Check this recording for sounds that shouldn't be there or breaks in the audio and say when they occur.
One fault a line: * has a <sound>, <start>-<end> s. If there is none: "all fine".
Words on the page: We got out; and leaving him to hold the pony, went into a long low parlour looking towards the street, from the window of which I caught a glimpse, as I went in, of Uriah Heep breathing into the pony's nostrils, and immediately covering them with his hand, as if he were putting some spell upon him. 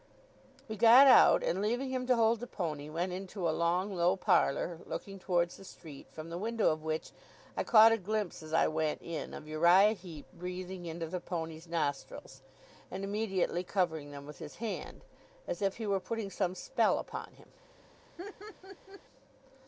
* has a laugh, 18.2-19.0 s